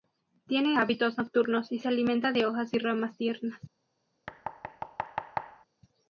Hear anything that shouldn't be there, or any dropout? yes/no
yes